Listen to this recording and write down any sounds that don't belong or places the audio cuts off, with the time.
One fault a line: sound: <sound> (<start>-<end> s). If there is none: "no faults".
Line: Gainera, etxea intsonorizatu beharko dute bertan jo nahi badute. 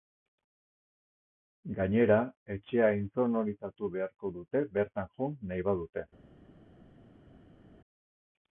no faults